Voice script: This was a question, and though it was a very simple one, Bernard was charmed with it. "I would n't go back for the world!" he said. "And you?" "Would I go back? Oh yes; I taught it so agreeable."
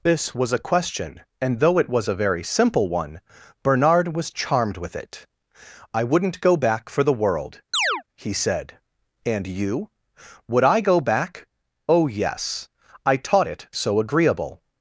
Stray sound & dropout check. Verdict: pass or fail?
fail